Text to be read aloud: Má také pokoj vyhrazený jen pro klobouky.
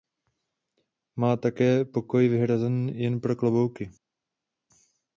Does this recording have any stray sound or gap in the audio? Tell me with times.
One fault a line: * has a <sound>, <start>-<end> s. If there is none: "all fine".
all fine